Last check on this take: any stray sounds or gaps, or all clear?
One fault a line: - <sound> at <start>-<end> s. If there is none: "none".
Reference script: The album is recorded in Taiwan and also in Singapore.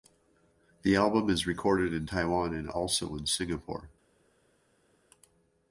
none